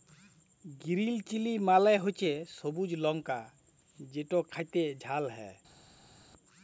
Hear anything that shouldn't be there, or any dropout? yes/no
no